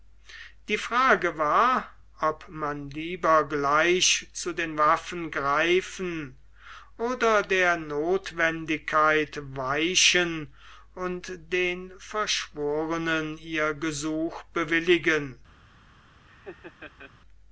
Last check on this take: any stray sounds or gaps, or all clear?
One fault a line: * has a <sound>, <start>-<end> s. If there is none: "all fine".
* has a laugh, 16.3-17.1 s